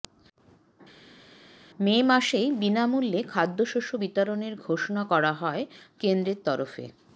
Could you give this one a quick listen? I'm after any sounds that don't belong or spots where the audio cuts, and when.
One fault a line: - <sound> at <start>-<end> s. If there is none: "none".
none